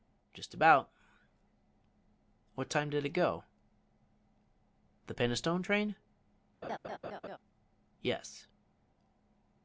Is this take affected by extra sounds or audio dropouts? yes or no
yes